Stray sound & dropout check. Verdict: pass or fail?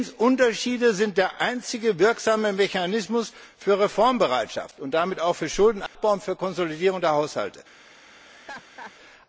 fail